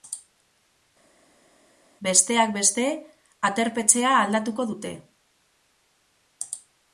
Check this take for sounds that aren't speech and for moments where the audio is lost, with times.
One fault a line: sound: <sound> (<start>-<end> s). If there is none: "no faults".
no faults